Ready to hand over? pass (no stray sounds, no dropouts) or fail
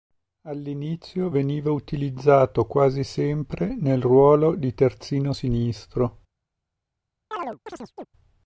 fail